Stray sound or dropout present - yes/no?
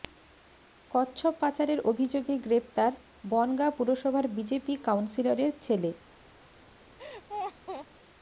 yes